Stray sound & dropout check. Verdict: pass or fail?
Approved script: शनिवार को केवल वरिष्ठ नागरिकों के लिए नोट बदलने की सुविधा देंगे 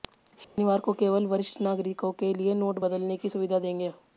fail